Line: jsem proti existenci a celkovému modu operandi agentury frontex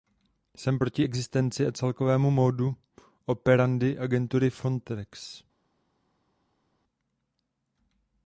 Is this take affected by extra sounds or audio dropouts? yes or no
no